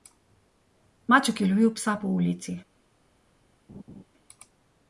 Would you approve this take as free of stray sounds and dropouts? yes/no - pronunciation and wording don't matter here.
no